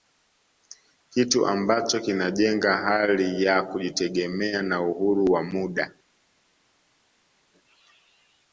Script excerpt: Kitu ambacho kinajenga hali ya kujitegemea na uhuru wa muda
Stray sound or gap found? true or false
false